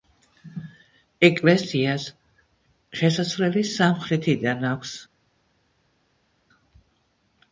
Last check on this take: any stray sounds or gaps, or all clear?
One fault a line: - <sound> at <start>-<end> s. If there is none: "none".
none